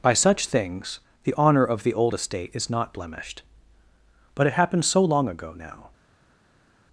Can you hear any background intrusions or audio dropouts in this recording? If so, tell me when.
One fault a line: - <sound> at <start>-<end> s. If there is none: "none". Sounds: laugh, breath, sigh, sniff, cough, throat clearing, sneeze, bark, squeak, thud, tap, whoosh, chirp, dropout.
none